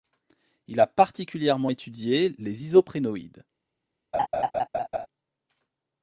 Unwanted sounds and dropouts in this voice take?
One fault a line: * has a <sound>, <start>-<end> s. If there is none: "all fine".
* has a laugh, 4.1-5.1 s